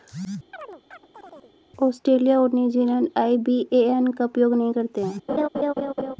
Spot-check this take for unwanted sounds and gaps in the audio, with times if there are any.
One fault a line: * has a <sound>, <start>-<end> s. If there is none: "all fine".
* has a chirp, 0.5-1.5 s
* has a laugh, 5.3-6.2 s